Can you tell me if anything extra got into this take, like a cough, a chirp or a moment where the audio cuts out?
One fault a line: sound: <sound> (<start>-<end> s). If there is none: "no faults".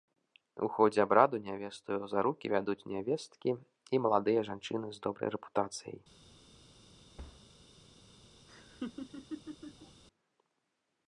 sound: thud (7.2-7.5 s)
sound: laugh (8.5-10.0 s)